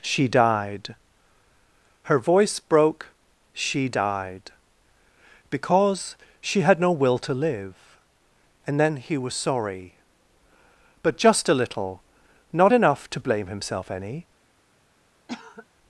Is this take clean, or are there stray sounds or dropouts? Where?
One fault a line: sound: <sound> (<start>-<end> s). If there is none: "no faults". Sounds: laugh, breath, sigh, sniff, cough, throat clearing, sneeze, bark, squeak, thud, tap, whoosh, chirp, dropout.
sound: cough (15.3-15.7 s)